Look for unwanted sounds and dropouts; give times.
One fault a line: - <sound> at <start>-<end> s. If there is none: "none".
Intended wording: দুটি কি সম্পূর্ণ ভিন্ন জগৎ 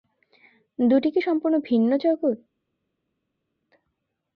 none